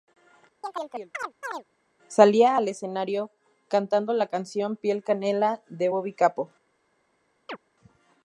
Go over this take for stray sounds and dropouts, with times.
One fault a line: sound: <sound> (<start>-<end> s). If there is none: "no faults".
sound: chirp (0.6-1.6 s)
sound: chirp (7.5-7.6 s)